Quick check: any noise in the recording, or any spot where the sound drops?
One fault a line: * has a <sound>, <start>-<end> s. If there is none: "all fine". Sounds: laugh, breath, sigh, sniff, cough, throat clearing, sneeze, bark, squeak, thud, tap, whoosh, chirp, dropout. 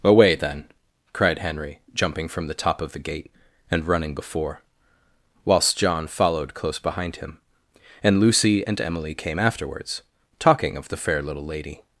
all fine